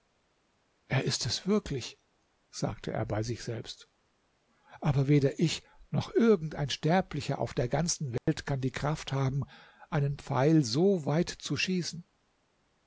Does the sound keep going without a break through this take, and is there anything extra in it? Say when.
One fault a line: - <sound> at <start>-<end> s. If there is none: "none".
- dropout at 8.2-8.3 s